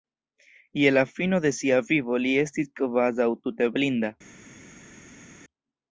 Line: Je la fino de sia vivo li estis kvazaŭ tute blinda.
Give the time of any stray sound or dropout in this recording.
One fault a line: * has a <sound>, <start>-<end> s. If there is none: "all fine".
all fine